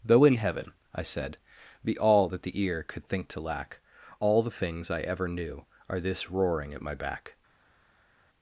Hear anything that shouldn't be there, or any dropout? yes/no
no